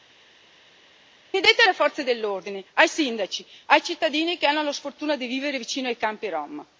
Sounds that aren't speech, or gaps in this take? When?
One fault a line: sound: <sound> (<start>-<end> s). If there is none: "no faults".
no faults